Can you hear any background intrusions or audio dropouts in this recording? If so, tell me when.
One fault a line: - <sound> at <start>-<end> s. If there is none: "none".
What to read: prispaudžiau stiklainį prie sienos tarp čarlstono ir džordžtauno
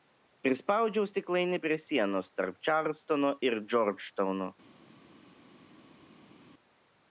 none